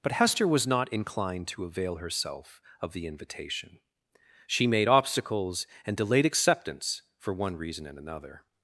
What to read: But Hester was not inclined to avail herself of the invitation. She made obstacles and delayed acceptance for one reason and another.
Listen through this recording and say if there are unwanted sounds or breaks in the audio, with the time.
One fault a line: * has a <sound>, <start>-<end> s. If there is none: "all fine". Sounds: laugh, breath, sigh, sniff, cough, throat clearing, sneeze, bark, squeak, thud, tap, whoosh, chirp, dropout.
all fine